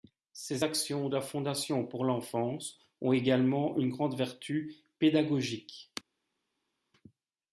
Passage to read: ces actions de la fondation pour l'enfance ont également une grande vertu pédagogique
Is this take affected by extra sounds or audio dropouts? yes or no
no